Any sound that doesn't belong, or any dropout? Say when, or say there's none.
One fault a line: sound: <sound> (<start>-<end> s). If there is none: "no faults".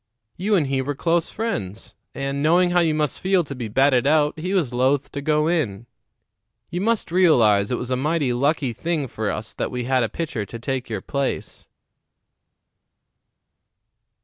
no faults